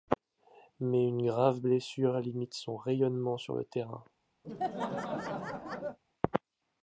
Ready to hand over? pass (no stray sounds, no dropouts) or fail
fail